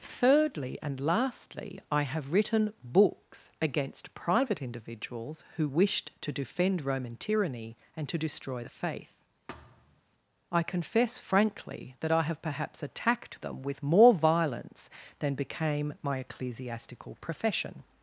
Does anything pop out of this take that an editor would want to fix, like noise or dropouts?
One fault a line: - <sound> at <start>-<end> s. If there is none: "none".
- thud at 9.5-10.0 s